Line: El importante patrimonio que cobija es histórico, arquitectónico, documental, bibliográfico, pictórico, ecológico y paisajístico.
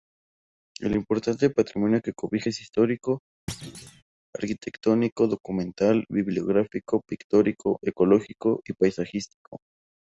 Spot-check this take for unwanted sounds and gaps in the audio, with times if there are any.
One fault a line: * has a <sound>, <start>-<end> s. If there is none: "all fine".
* has a thud, 3.5-4.0 s